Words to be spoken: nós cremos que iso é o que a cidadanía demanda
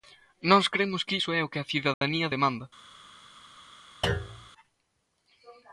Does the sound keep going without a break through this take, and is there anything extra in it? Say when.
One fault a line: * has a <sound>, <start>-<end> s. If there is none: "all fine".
* has a dropout, 1.9-2.0 s
* has a thud, 4.0-4.5 s